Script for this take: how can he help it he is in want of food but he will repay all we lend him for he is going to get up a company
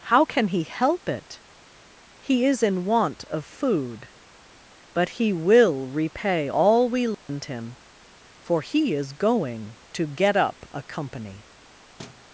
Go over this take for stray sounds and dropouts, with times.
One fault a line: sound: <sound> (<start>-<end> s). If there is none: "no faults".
sound: dropout (7.1-7.3 s)
sound: thud (12.0-12.3 s)